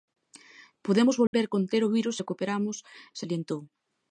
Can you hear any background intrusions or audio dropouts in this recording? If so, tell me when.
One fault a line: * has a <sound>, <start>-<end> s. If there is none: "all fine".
* has a dropout, 1.3-1.3 s